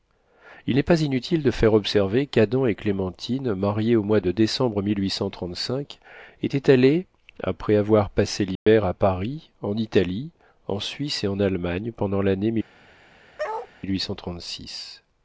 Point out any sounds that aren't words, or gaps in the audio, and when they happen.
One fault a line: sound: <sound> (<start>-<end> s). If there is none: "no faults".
sound: dropout (8.6-8.7 s)
sound: bark (13.4-13.7 s)